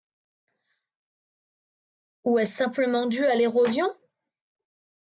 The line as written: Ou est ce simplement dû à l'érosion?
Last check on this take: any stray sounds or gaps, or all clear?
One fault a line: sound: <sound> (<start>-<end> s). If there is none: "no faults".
no faults